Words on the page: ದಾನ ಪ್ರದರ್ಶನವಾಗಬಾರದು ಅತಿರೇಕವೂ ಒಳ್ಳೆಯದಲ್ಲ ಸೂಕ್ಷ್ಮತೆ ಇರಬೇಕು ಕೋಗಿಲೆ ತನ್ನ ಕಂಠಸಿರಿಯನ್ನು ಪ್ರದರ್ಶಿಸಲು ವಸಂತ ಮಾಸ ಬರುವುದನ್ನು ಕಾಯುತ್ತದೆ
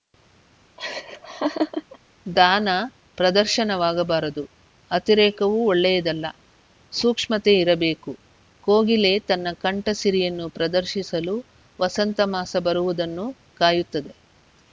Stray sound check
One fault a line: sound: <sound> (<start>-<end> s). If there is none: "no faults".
sound: laugh (0.8-2.0 s)